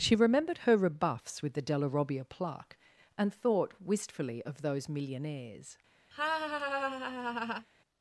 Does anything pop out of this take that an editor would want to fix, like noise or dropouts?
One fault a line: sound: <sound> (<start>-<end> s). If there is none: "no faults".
sound: laugh (6.1-7.7 s)